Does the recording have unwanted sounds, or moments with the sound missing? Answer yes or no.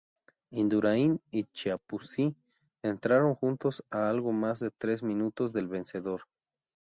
no